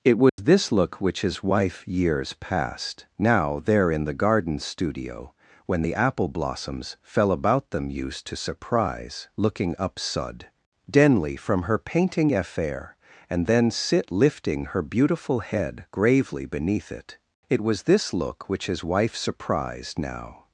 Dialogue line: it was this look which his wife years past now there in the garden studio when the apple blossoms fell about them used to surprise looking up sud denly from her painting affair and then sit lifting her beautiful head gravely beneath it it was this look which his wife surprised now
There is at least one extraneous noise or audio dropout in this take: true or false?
true